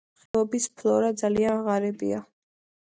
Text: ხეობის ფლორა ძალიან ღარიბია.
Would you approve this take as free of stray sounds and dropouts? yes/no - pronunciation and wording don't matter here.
no